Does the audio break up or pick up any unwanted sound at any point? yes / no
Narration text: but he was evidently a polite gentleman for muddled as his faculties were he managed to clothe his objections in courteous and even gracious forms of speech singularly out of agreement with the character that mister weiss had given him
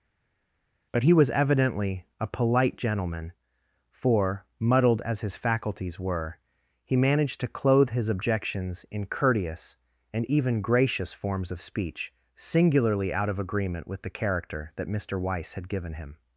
no